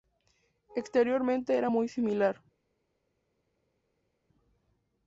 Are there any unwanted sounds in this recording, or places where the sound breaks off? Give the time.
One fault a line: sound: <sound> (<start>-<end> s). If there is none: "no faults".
no faults